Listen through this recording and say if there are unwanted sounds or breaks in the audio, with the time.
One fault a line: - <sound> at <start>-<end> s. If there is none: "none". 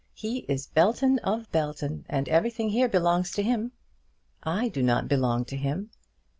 none